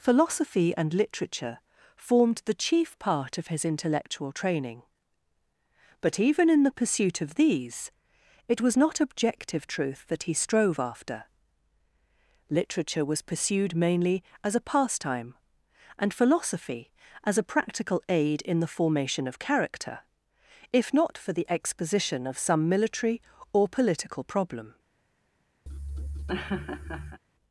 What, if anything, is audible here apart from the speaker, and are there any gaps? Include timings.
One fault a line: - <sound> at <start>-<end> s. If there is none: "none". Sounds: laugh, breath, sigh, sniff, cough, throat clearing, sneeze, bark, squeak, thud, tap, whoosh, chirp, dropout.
- laugh at 25.7-27.2 s